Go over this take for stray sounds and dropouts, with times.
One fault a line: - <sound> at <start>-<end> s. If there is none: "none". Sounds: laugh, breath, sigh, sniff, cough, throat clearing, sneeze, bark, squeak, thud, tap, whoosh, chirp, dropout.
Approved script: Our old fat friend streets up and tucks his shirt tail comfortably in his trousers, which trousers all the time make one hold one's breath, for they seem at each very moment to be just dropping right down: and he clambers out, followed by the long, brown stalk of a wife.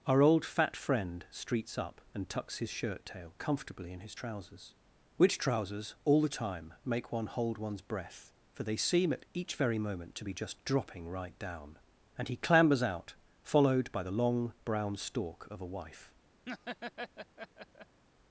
- laugh at 16.5-18.0 s